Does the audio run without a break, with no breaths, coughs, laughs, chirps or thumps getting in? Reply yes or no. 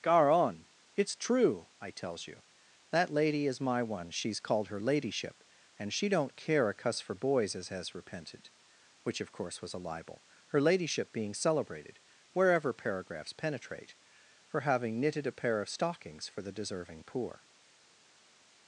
yes